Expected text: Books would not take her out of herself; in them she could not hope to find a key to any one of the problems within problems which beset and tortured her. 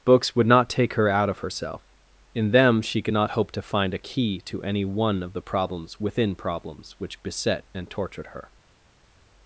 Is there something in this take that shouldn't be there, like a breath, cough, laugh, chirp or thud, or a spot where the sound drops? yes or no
no